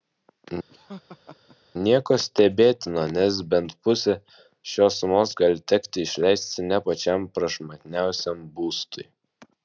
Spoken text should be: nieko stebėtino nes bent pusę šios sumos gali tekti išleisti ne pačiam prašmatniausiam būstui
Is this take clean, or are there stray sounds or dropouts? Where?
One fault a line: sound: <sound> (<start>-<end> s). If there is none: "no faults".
sound: laugh (0.7-1.6 s)